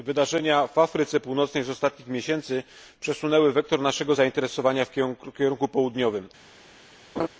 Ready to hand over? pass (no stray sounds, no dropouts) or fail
fail